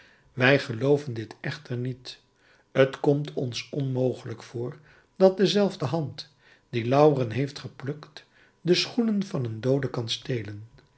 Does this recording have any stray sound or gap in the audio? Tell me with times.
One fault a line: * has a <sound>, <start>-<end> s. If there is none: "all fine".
all fine